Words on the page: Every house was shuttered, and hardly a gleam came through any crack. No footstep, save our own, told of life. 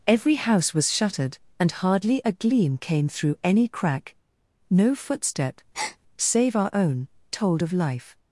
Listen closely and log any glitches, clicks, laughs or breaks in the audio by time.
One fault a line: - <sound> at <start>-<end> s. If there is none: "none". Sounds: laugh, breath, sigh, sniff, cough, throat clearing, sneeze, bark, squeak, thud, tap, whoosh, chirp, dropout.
- breath at 5.7-6.0 s